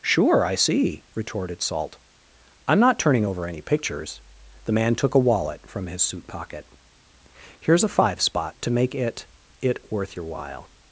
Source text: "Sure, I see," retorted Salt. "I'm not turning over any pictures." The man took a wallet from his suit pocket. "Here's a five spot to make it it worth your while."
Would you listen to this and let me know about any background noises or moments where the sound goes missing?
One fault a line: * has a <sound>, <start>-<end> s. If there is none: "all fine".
all fine